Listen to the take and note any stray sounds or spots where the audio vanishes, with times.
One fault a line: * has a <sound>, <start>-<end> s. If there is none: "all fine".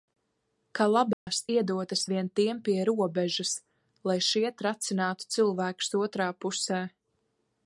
* has a dropout, 1.1-1.3 s